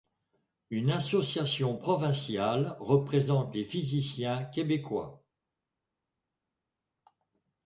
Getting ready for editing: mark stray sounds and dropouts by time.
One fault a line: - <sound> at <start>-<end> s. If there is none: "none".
none